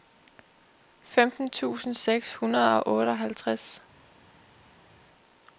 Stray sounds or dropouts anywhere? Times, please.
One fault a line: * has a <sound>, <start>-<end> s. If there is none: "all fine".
all fine